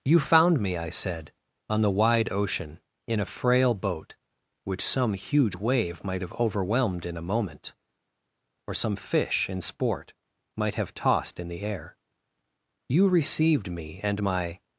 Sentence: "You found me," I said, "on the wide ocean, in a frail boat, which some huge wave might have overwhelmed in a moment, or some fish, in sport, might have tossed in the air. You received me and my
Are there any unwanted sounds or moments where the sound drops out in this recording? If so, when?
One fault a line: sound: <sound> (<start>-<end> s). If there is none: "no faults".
no faults